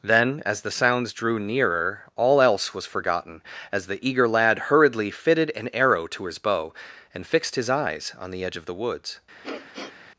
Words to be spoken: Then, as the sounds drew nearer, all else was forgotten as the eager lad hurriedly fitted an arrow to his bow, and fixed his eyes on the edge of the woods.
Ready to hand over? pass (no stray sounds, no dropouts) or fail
fail